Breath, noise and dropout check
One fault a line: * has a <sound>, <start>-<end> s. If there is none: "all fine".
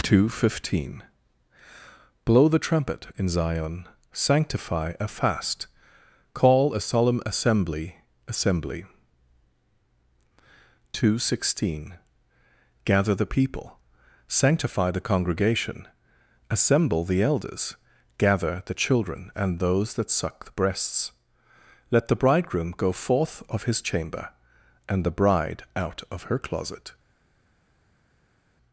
all fine